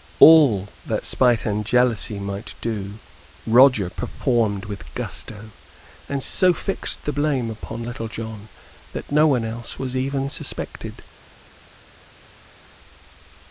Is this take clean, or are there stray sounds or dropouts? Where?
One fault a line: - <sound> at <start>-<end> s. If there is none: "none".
none